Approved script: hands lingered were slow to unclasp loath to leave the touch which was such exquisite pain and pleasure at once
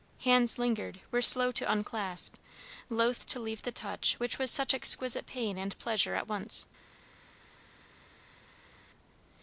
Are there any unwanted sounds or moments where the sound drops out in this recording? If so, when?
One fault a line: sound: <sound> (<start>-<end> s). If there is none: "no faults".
no faults